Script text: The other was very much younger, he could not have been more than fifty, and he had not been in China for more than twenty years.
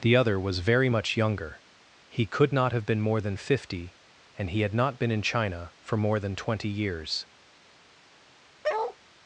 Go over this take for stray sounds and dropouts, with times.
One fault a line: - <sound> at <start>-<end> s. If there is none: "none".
- bark at 8.6-9.0 s